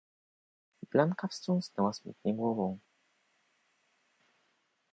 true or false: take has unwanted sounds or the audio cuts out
false